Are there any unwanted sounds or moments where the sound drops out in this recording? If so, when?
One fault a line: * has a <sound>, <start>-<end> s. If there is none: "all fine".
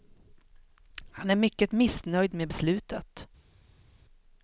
all fine